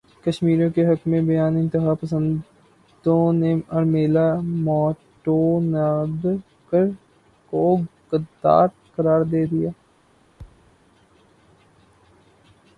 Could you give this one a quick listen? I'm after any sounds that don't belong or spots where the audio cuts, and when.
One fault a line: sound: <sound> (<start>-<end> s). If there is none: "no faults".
sound: thud (10.4-10.8 s)